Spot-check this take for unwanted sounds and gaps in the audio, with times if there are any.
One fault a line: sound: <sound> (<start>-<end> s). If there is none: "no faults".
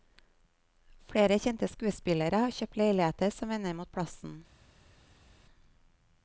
no faults